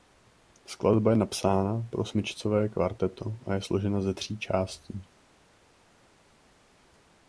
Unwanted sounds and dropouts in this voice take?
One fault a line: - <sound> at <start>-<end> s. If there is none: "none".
none